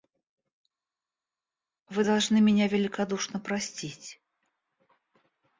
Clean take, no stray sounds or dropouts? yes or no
yes